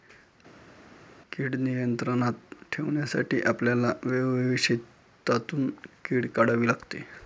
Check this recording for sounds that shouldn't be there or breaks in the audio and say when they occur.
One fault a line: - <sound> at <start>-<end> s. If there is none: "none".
none